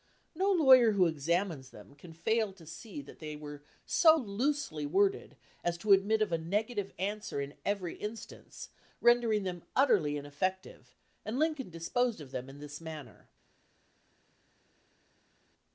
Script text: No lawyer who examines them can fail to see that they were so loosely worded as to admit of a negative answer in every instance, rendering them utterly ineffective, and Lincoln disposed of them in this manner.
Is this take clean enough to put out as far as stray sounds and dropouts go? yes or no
yes